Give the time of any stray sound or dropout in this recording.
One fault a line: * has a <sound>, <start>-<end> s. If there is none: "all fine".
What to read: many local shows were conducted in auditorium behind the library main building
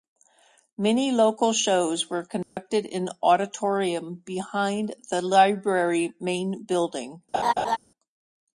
* has a dropout, 2.4-2.6 s
* has a laugh, 7.3-7.8 s